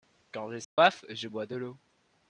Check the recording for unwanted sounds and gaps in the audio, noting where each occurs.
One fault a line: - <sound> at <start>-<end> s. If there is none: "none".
- dropout at 0.6-0.8 s